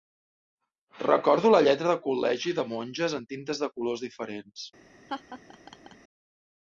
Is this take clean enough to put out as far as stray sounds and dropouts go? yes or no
no